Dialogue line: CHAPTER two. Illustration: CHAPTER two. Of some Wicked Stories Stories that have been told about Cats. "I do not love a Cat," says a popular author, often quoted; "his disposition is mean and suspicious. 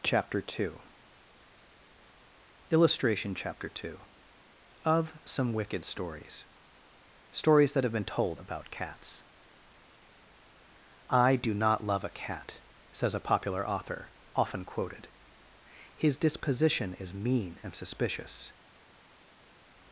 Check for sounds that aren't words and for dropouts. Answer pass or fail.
pass